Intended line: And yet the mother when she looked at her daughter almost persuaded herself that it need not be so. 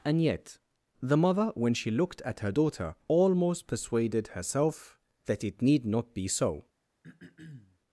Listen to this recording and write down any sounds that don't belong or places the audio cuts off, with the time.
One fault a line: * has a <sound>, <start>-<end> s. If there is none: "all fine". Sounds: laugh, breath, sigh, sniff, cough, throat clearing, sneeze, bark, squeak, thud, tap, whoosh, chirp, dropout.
* has a throat clearing, 7.0-7.8 s